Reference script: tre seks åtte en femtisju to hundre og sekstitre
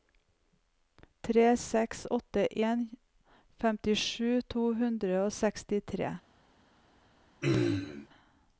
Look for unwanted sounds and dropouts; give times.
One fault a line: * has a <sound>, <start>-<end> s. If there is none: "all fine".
* has a throat clearing, 7.4-8.1 s